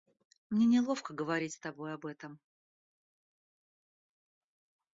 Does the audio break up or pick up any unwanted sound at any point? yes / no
no